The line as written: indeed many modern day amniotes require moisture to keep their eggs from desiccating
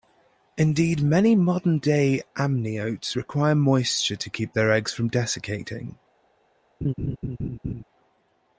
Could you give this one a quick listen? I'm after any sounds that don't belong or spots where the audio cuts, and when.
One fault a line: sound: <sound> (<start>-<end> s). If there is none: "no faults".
sound: laugh (6.8-7.8 s)